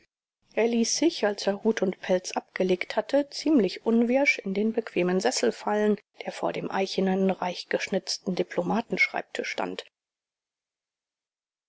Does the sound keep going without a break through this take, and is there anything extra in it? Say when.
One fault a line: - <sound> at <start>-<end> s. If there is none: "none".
none